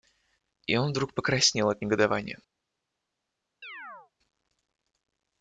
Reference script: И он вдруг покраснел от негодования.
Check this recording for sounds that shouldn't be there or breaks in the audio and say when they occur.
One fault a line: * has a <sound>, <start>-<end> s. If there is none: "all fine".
* has a chirp, 3.6-4.1 s